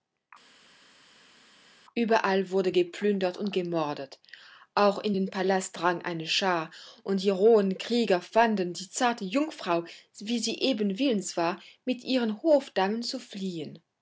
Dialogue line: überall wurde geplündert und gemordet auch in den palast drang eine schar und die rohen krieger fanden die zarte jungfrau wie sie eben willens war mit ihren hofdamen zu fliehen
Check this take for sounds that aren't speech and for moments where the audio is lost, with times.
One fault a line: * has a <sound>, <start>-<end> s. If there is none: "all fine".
all fine